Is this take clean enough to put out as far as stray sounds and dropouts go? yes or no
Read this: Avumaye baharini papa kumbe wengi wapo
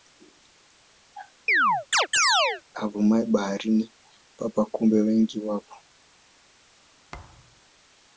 no